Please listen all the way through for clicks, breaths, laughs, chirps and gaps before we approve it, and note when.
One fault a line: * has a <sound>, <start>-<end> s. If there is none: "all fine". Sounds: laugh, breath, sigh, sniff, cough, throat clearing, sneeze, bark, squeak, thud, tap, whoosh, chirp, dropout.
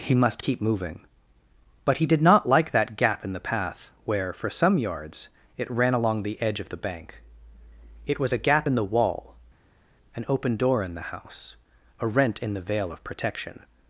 all fine